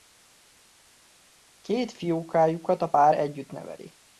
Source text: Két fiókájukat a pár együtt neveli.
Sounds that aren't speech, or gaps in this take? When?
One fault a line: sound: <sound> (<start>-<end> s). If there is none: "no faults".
no faults